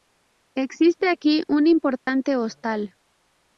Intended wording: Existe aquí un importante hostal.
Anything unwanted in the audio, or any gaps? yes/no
yes